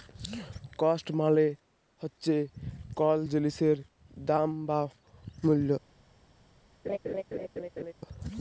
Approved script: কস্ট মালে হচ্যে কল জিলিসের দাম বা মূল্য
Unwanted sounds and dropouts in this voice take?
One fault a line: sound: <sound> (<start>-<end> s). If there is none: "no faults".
sound: laugh (6.8-7.9 s)